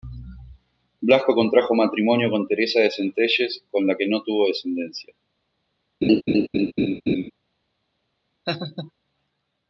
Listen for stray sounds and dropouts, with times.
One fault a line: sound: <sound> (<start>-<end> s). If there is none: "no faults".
sound: laugh (6.0-7.3 s)
sound: laugh (8.5-8.9 s)